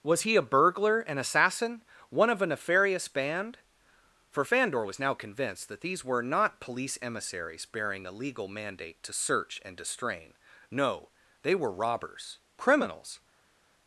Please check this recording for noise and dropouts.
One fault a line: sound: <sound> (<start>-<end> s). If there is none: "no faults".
no faults